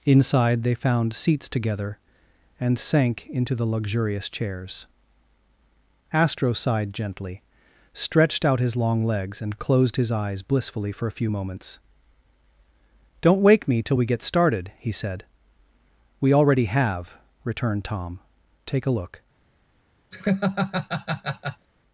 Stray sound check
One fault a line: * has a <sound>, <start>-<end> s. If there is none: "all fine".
* has a laugh, 20.1-21.7 s